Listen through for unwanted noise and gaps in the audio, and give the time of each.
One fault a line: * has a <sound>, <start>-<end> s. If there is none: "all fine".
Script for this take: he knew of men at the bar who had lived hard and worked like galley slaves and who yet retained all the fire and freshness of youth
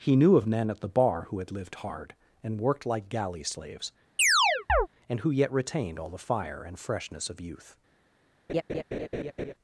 * has a chirp, 4.2-4.9 s
* has a laugh, 8.5-9.5 s